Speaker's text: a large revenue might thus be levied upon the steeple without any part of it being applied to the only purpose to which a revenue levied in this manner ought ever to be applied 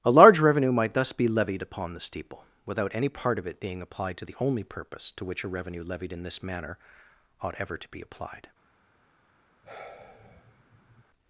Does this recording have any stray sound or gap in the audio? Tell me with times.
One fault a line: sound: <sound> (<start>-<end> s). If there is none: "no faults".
sound: sigh (9.6-11.0 s)